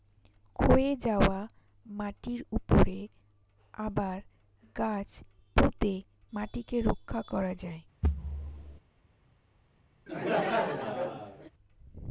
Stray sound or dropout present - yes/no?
yes